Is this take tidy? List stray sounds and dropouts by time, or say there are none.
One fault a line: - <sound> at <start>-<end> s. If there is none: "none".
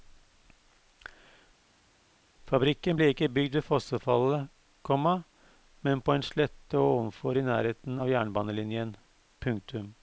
none